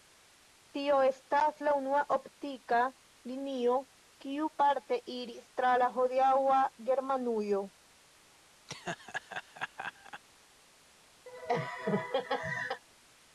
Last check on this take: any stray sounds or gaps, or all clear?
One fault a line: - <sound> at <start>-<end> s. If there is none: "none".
- laugh at 8.7-10.2 s
- laugh at 11.3-12.8 s